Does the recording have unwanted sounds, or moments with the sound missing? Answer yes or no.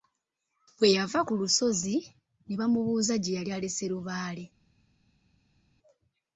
no